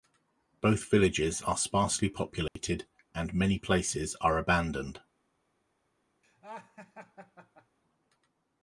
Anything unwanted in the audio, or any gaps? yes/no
yes